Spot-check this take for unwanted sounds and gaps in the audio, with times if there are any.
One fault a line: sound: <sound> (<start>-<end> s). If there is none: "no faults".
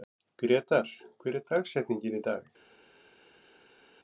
no faults